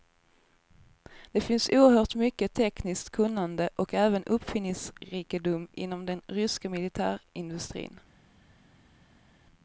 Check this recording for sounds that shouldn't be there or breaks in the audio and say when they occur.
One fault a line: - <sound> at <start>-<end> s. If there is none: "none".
none